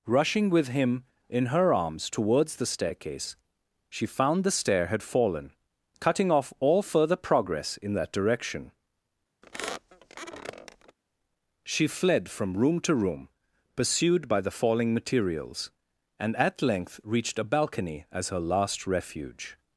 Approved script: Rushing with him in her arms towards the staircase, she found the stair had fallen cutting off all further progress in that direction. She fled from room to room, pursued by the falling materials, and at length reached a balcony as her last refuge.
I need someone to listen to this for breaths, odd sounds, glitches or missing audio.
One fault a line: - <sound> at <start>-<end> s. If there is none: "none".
- squeak at 9.4-11.0 s